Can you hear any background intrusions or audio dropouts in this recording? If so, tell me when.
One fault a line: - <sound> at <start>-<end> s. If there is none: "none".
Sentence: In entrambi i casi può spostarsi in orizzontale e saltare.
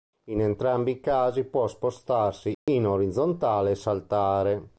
- dropout at 2.5-2.7 s